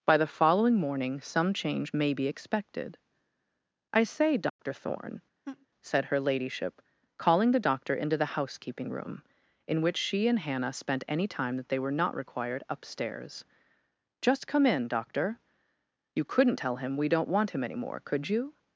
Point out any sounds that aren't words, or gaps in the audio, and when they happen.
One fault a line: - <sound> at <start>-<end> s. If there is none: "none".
- dropout at 4.5-4.6 s
- laugh at 5.4-5.7 s